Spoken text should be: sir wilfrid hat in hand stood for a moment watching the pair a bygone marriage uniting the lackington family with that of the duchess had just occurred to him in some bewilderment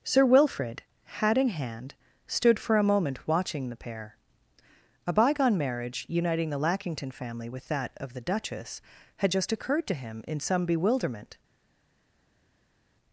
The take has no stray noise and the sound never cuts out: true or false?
true